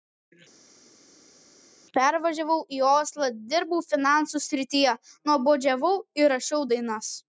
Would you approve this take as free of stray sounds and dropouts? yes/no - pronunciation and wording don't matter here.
yes